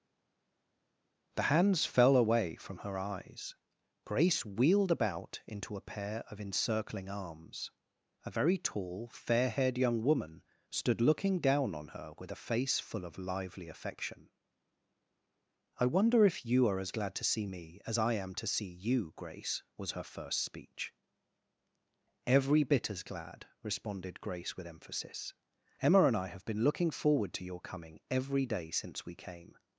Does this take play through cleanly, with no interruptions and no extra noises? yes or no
yes